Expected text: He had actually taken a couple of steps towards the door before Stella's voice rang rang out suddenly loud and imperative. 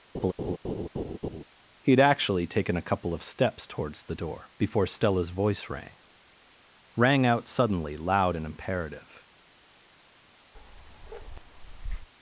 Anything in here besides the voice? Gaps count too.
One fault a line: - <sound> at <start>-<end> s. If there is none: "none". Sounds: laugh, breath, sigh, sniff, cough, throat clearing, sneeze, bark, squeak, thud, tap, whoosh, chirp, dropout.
- laugh at 0.1-1.4 s
- bark at 10.5-12.1 s